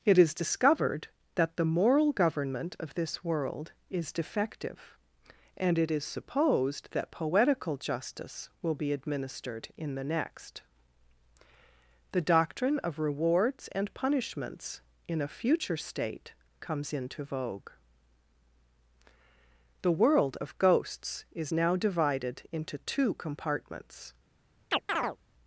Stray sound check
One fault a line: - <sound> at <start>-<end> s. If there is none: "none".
- chirp at 24.7-25.2 s